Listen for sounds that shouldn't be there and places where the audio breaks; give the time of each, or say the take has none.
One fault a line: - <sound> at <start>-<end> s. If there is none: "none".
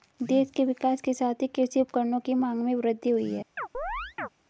- chirp at 3.6-4.3 s